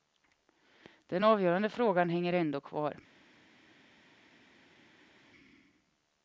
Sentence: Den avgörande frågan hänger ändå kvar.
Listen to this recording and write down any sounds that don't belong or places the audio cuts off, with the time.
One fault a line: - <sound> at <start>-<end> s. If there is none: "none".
none